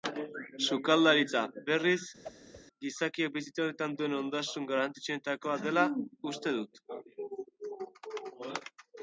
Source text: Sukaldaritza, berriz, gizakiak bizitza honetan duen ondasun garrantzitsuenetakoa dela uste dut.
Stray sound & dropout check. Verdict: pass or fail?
fail